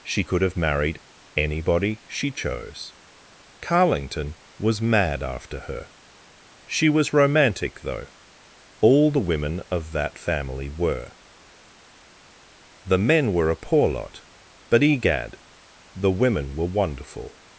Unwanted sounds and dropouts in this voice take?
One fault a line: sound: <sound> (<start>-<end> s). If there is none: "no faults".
no faults